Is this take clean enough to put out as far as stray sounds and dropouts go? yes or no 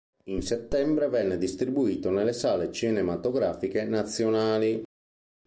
yes